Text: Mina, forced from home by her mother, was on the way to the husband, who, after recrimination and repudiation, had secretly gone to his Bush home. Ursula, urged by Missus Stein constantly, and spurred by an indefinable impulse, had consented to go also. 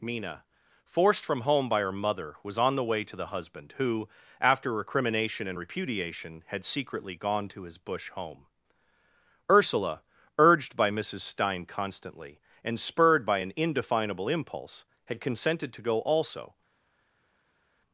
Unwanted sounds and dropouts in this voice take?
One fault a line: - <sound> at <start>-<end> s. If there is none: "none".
none